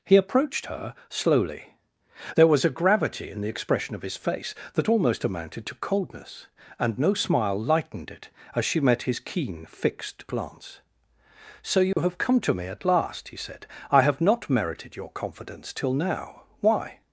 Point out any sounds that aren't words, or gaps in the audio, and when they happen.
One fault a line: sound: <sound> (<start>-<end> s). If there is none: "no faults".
sound: dropout (11.9-12.0 s)